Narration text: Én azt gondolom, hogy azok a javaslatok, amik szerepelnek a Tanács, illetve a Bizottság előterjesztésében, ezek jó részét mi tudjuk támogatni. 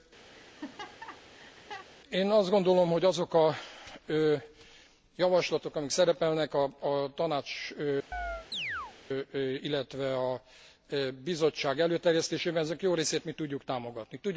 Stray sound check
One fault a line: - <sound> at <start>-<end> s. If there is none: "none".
- laugh at 0.3-1.9 s
- chirp at 8.1-8.9 s